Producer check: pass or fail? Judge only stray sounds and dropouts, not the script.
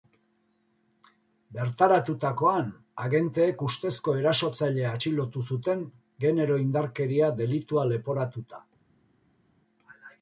pass